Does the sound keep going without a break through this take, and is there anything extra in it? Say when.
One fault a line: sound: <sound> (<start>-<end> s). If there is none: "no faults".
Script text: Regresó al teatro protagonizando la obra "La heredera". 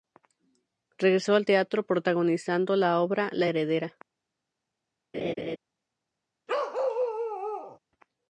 sound: laugh (5.1-5.6 s)
sound: bark (6.5-7.8 s)